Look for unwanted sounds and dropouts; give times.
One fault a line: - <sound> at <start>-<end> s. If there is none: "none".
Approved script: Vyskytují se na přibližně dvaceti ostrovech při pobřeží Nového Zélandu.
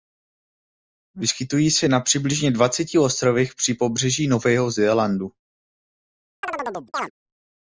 - chirp at 6.4-7.1 s